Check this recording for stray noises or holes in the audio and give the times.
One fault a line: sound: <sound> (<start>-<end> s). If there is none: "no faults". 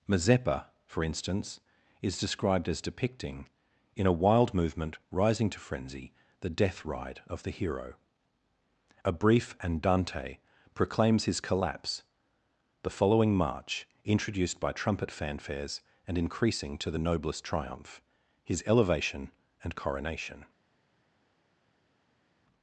no faults